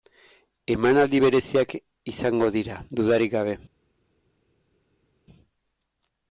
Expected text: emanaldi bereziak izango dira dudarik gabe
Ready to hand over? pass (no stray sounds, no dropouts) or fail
pass